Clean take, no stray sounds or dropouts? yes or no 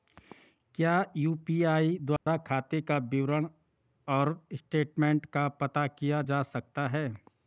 no